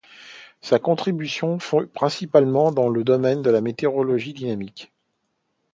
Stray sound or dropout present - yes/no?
no